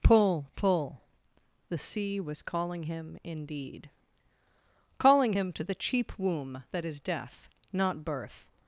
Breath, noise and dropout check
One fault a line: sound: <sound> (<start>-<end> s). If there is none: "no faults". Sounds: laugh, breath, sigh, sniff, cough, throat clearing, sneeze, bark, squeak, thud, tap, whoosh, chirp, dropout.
no faults